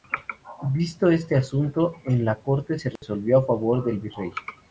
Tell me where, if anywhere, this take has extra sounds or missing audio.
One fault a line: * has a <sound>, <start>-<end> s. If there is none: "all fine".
* has a dropout, 3.0-3.0 s